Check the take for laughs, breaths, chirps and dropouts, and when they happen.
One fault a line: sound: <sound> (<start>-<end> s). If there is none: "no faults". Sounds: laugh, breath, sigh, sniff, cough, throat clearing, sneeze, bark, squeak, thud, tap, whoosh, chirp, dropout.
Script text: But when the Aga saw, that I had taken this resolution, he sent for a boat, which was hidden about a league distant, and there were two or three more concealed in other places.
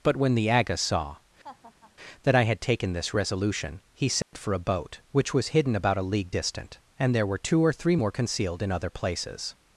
sound: laugh (1.4-1.9 s)
sound: dropout (4.2-4.3 s)